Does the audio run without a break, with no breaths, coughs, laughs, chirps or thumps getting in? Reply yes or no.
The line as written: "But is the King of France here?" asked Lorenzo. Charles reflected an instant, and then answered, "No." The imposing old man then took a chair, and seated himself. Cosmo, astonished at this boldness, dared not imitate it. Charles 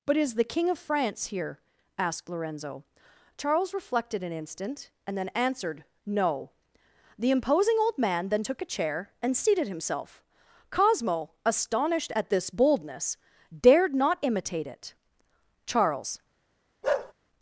no